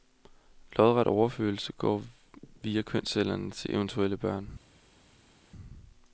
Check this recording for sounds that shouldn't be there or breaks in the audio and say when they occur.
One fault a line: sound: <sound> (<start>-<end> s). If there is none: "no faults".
no faults